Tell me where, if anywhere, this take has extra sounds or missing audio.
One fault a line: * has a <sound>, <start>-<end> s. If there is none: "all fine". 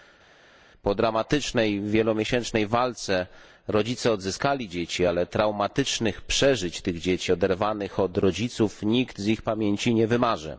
all fine